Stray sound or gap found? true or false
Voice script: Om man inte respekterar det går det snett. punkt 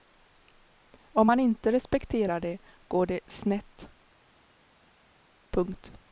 false